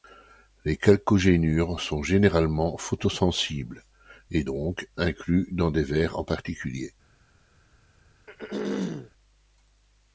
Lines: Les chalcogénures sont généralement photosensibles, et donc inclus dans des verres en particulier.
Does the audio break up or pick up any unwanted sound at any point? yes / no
yes